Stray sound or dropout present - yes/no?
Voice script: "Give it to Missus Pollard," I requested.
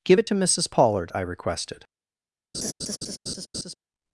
yes